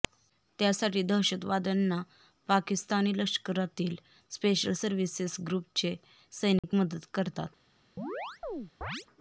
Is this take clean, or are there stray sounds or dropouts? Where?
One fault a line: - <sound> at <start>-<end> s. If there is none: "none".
- dropout at 6.6-6.6 s
- chirp at 8.0-9.1 s